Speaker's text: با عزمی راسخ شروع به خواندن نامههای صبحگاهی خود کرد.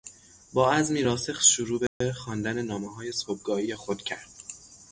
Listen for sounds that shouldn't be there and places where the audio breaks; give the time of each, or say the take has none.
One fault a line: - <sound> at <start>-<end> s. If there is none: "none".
- dropout at 1.9-2.0 s